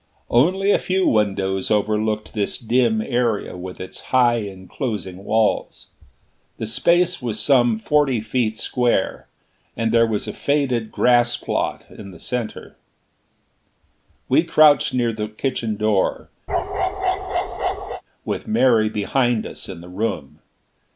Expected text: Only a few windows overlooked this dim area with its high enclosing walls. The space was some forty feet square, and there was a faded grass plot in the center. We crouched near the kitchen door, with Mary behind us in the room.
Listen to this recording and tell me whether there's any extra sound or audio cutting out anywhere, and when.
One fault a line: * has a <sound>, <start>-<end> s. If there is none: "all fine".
* has a bark, 16.5-18.0 s